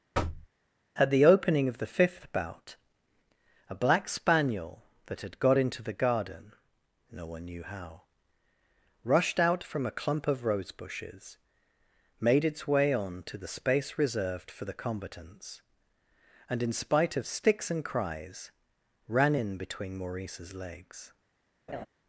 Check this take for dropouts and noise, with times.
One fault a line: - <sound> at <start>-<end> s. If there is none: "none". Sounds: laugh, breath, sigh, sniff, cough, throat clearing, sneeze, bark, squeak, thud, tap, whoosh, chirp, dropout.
- thud at 0.1-0.5 s
- laugh at 21.7-21.9 s